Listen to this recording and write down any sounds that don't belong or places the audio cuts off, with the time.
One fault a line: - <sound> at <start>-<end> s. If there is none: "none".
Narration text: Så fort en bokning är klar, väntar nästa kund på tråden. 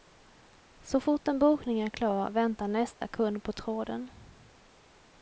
- dropout at 2.9-3.0 s